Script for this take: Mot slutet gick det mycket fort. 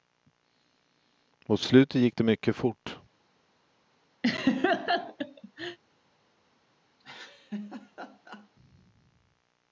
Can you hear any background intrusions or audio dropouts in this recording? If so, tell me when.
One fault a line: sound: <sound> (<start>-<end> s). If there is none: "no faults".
sound: laugh (4.2-5.8 s)
sound: laugh (7.0-8.5 s)